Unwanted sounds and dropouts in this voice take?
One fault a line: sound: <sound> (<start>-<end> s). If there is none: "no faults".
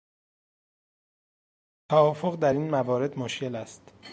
no faults